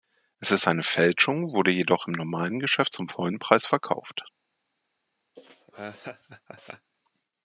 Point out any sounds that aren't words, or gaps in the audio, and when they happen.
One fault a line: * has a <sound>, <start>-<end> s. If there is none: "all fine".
* has a laugh, 5.4-6.9 s